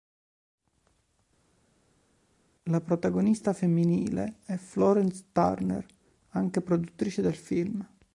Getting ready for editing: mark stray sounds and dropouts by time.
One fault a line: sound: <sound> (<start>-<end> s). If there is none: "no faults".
no faults